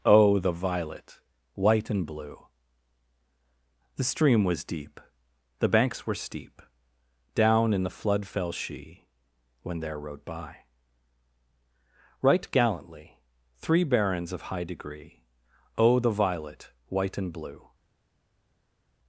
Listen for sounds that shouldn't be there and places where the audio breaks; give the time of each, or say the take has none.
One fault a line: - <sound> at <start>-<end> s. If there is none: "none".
none